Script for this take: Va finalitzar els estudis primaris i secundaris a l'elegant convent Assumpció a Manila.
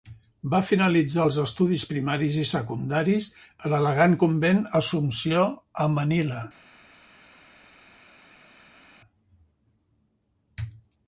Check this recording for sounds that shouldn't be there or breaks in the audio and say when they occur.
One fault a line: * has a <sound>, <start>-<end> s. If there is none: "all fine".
all fine